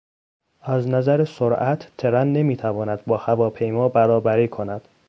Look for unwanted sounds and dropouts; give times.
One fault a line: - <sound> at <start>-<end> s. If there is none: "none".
none